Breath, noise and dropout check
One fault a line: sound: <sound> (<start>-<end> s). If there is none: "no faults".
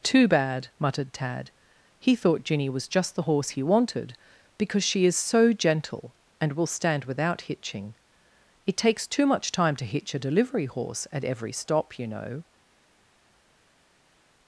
no faults